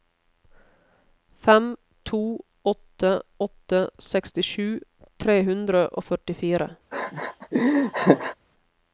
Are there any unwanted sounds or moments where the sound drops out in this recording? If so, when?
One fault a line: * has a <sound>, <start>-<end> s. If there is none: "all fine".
* has a laugh, 6.9-8.4 s